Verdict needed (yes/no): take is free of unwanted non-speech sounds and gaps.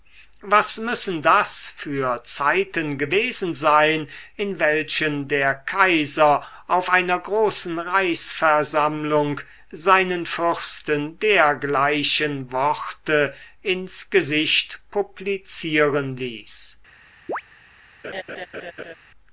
no